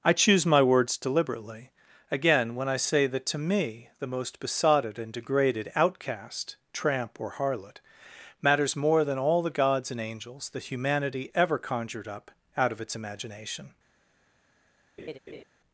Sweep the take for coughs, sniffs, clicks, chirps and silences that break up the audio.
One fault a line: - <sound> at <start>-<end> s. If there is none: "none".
- laugh at 15.0-15.4 s